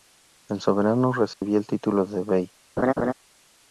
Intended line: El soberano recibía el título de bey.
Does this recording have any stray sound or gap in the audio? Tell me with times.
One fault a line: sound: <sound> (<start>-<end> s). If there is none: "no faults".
sound: dropout (1.3-1.4 s)
sound: laugh (2.8-3.1 s)